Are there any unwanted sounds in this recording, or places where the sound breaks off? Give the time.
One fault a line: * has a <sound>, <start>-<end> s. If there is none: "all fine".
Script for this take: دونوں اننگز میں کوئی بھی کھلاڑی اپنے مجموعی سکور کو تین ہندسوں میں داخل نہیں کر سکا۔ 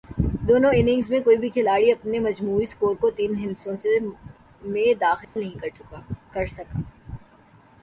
* has a dropout, 5.2-5.4 s